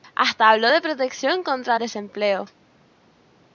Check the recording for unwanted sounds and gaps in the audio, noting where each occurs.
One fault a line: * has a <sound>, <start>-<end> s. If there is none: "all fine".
all fine